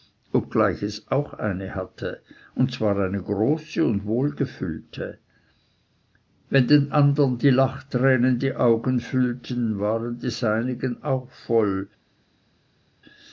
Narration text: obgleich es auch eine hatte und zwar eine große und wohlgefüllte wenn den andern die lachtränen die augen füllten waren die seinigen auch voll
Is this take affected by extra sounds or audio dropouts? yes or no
no